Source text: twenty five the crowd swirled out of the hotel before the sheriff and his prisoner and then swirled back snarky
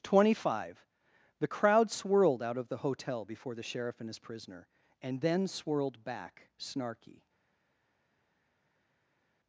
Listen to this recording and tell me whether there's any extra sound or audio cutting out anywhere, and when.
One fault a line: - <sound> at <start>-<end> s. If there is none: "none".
none